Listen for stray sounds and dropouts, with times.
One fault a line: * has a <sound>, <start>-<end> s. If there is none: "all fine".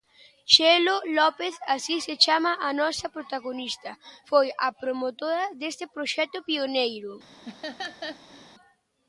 * has a laugh, 7.4-8.5 s